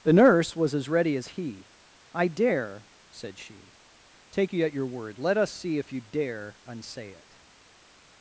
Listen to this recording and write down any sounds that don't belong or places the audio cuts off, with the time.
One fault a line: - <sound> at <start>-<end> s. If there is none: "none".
none